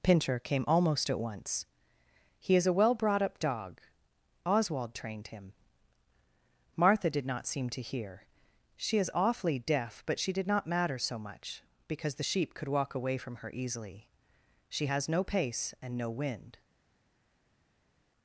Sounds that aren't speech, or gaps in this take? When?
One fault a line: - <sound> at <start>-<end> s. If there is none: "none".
none